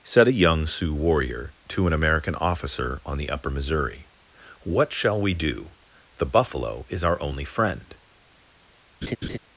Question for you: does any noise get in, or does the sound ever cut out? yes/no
yes